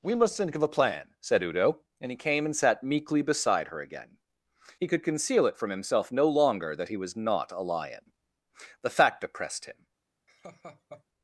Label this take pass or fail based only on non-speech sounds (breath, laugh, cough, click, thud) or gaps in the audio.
fail